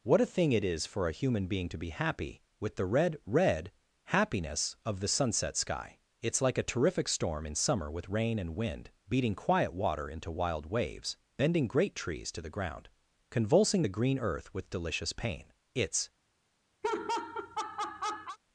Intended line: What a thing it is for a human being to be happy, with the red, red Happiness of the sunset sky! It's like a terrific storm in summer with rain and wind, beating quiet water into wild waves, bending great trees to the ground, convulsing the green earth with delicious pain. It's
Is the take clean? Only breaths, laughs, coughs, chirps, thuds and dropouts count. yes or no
no